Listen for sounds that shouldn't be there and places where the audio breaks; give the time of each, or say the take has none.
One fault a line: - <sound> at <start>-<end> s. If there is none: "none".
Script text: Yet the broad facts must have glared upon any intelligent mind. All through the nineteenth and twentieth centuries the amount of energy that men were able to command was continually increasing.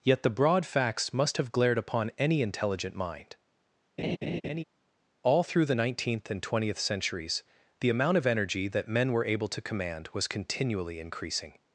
- laugh at 4.0-4.6 s